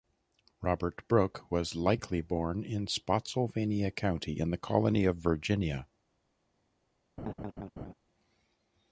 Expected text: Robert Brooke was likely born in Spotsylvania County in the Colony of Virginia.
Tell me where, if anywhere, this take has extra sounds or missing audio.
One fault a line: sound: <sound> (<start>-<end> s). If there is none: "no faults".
sound: laugh (7.2-7.9 s)